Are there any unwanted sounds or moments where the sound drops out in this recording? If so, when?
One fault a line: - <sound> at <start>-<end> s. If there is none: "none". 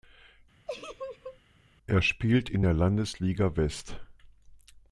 - laugh at 0.7-1.4 s